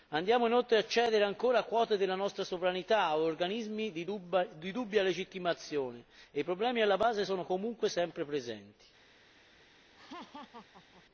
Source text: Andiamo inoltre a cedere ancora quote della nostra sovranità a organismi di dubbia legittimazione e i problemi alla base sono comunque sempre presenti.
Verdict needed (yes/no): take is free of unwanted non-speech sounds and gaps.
no